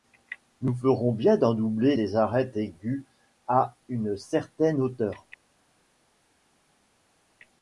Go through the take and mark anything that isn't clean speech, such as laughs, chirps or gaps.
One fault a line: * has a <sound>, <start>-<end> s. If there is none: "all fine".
all fine